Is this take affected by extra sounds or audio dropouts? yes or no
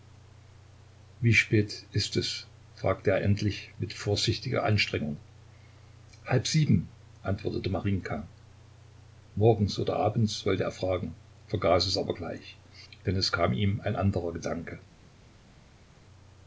no